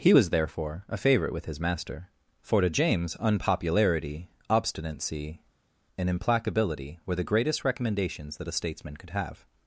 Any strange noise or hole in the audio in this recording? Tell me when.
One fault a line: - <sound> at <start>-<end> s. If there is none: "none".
none